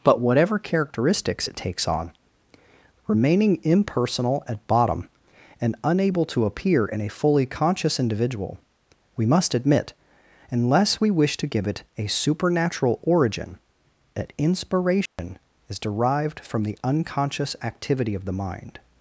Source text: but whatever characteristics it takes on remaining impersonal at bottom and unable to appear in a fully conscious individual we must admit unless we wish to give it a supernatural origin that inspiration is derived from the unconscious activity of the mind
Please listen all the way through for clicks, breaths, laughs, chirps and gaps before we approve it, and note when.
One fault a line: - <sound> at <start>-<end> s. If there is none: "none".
- dropout at 15.1-15.2 s